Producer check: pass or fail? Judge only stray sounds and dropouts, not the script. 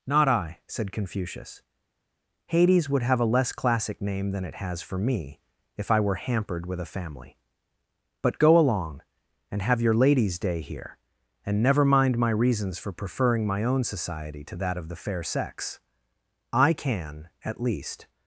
pass